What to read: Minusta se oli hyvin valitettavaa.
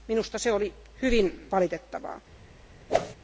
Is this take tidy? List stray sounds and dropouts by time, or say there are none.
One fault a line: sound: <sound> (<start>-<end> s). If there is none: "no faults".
sound: whoosh (2.9-3.2 s)